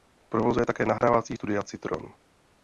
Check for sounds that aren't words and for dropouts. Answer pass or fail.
fail